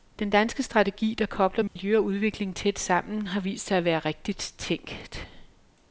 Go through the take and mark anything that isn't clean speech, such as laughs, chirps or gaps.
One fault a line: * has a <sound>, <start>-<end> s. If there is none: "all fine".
* has a dropout, 1.7-1.8 s